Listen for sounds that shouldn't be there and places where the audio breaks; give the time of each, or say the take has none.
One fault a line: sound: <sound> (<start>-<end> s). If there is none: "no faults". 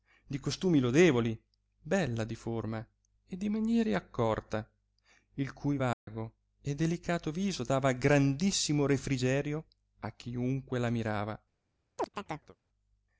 sound: dropout (5.9-6.1 s)
sound: chirp (12.0-12.6 s)